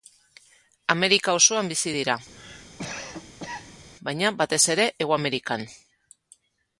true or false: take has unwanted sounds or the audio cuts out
true